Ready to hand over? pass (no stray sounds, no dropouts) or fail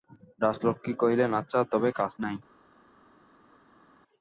pass